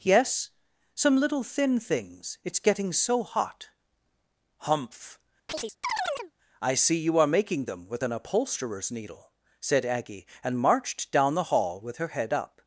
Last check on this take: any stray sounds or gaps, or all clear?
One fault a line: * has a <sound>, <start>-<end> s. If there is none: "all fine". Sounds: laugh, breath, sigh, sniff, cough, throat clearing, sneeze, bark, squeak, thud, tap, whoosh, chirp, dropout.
* has a chirp, 5.5-6.3 s